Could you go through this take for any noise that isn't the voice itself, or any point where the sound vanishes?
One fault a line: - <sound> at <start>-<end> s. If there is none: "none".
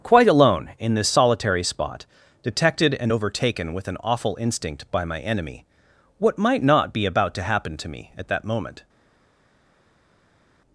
none